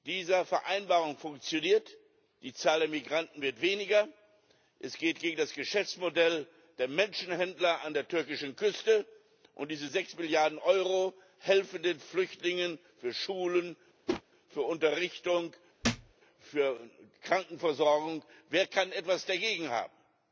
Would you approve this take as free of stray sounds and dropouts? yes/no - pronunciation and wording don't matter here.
no